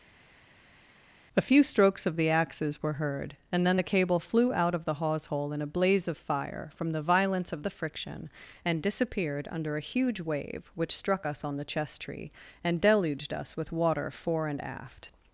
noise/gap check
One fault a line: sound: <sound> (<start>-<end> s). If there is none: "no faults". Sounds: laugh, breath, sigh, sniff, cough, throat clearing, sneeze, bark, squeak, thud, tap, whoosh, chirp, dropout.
no faults